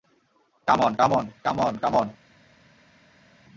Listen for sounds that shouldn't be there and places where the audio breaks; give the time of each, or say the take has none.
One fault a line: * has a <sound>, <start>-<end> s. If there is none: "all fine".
all fine